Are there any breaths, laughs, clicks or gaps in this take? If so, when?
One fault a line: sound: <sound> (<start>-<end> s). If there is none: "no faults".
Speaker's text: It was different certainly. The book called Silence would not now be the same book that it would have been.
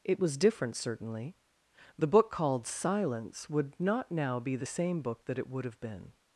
no faults